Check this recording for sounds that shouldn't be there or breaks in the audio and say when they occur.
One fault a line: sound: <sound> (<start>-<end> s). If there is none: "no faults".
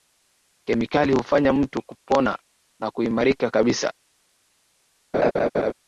sound: laugh (5.1-5.7 s)